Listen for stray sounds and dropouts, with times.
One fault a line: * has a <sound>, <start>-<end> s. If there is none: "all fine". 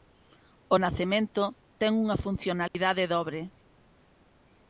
* has a dropout, 2.7-2.7 s